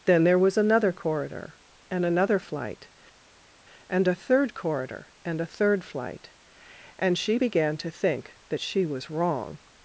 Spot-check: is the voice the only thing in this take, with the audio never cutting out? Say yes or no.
yes